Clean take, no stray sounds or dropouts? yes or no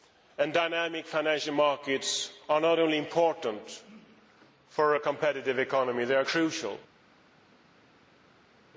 yes